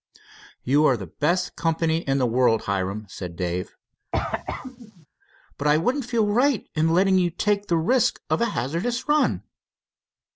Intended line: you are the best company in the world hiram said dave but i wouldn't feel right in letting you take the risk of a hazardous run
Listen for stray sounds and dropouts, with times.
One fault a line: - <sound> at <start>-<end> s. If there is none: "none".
- cough at 4.1-5.1 s